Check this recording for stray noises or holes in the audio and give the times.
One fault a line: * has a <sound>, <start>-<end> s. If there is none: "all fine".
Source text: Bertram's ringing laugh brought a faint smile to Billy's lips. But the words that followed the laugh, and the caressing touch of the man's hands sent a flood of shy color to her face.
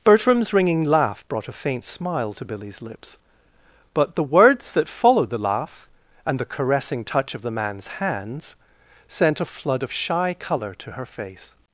all fine